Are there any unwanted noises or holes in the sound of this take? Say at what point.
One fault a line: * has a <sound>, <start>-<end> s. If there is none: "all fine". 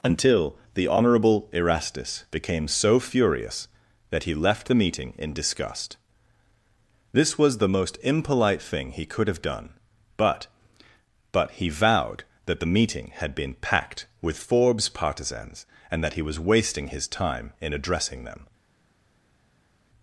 all fine